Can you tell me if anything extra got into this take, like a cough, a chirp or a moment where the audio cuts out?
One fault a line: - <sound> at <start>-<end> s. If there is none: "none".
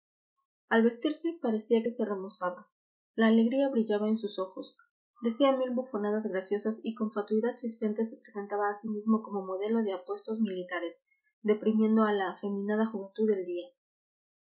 none